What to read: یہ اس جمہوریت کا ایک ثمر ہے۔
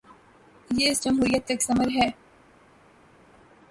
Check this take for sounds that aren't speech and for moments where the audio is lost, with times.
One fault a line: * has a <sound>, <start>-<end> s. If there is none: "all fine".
all fine